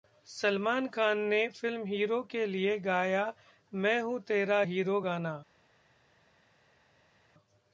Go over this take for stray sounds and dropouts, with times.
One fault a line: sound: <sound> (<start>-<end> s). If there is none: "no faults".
no faults